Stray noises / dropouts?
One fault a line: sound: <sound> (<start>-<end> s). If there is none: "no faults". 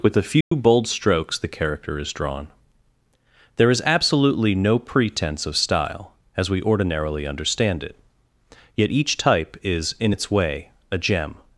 sound: dropout (0.4-0.5 s)